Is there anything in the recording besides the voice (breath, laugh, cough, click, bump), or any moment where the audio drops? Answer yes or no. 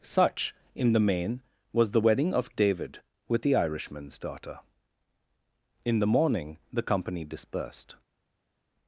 no